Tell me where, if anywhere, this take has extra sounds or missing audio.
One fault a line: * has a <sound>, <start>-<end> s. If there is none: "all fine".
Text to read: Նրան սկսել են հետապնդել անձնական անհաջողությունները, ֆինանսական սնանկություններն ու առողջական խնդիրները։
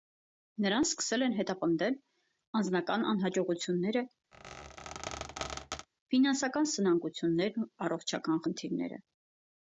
* has a squeak, 4.3-5.9 s